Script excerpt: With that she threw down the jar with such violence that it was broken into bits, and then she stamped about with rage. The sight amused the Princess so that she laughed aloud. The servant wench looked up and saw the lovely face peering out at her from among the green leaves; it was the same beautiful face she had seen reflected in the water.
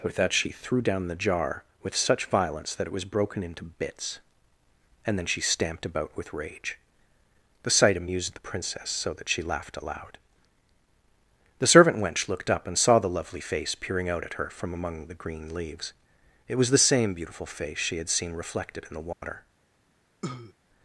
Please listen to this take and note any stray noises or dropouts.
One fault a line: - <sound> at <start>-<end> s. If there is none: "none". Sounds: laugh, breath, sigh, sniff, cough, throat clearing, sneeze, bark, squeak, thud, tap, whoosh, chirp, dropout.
- dropout at 19.1-19.2 s
- cough at 20.2-20.5 s